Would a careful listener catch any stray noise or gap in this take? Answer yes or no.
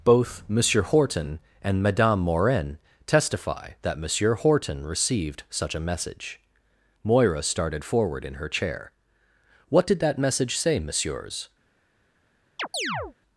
yes